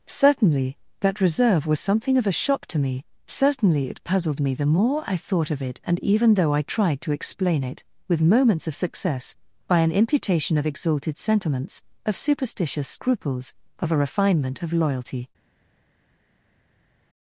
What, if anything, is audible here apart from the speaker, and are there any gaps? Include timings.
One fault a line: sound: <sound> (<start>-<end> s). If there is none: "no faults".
no faults